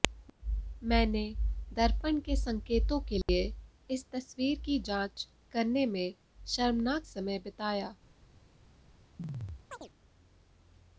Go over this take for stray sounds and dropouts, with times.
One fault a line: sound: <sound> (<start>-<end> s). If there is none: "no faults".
sound: dropout (3.2-3.3 s)
sound: chirp (9.2-9.9 s)